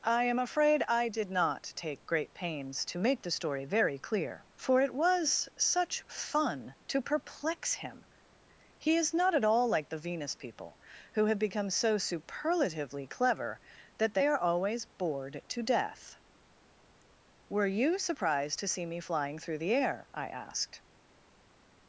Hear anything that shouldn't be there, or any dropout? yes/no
no